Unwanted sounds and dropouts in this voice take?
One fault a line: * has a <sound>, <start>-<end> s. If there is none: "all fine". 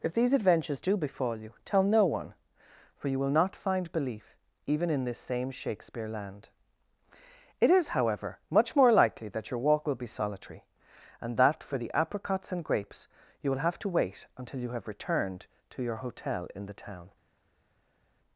all fine